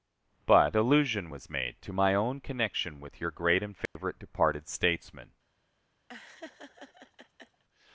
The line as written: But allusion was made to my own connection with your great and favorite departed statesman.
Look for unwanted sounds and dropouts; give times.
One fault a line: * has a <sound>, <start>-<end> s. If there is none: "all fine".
* has a dropout, 3.9-4.0 s
* has a laugh, 6.1-7.6 s